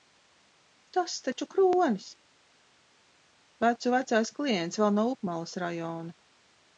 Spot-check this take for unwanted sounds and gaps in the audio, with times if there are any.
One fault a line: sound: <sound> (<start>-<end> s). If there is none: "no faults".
no faults